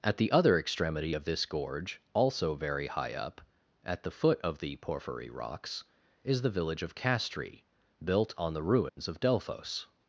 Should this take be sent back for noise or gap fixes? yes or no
yes